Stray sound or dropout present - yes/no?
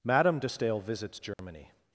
yes